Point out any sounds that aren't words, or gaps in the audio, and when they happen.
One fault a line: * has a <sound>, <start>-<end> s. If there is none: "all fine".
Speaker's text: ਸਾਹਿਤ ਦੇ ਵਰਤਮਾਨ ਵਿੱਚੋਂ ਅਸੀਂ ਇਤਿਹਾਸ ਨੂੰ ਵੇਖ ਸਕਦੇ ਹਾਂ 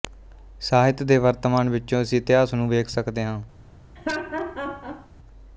* has a laugh, 4.0-5.1 s